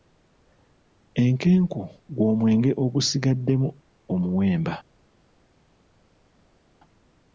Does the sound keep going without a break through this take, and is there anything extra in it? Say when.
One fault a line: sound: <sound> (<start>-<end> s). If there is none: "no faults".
no faults